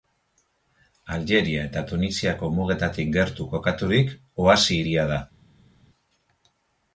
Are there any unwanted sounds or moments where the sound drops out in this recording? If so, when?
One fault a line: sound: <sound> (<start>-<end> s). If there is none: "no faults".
no faults